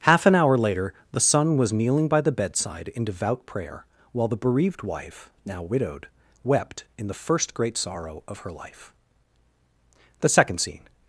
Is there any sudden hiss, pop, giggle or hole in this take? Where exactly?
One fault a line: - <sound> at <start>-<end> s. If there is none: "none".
none